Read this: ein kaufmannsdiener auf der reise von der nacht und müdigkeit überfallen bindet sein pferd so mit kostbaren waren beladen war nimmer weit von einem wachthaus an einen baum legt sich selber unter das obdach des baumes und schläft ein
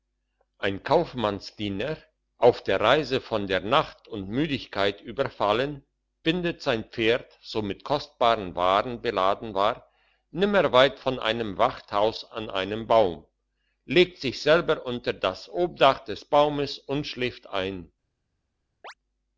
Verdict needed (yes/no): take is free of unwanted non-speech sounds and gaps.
no